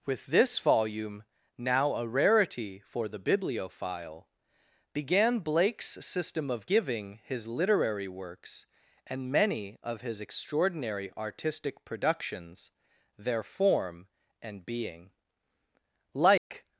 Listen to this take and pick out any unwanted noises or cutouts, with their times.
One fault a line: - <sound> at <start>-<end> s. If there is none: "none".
- dropout at 16.4-16.5 s